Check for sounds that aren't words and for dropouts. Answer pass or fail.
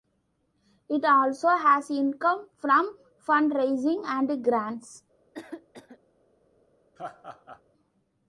fail